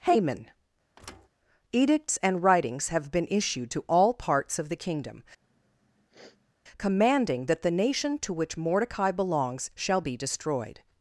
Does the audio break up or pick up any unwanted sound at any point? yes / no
yes